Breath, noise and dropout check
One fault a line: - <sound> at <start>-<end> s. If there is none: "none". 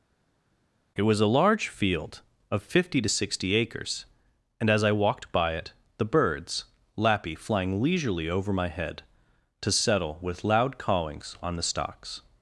none